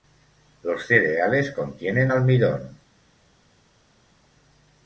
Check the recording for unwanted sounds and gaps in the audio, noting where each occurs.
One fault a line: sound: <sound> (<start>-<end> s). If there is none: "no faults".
no faults